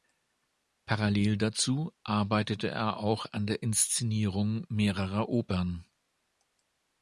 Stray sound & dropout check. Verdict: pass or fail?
pass